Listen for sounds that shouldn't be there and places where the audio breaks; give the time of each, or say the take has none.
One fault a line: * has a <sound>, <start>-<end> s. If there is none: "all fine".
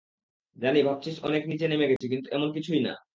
* has a dropout, 2.0-2.0 s